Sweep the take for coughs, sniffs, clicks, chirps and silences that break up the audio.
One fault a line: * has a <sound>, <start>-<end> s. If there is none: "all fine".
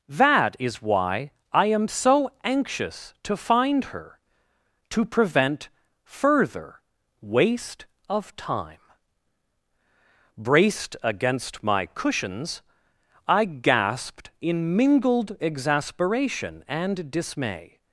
all fine